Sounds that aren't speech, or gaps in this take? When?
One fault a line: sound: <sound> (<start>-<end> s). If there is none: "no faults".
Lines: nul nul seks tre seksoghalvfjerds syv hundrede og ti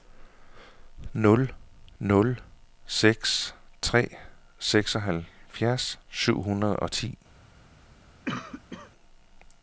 sound: cough (8.2-8.9 s)